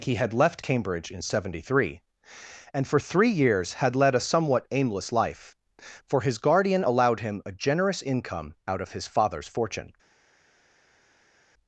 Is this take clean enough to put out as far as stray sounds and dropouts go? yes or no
yes